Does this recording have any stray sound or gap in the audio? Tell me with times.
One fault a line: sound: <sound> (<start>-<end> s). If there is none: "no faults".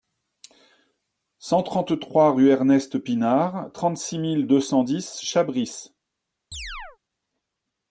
sound: chirp (6.5-7.0 s)